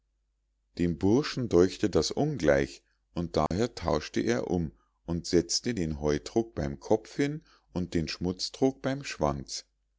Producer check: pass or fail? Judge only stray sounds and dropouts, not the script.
fail